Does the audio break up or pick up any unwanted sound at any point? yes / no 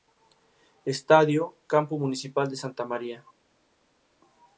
no